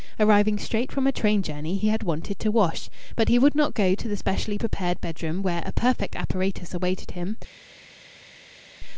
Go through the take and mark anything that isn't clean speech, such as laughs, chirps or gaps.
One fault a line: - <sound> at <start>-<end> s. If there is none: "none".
none